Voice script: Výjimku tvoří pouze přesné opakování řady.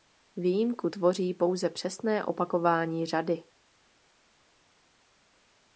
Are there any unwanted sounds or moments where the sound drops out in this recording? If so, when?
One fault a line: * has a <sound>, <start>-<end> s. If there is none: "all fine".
all fine